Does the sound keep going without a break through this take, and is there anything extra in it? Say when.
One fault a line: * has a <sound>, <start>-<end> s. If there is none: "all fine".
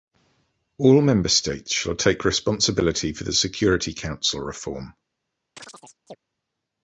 * has a chirp, 5.6-6.2 s